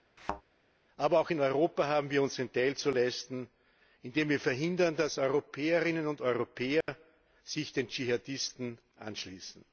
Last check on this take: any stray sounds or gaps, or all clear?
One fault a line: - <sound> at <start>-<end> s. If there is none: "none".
- thud at 0.2-0.4 s
- dropout at 6.8-6.9 s